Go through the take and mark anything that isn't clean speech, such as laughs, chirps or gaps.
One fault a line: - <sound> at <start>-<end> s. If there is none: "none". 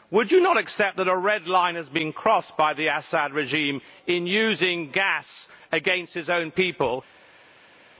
none